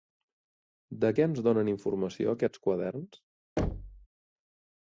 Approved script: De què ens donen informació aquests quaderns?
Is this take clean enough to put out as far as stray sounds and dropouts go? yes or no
no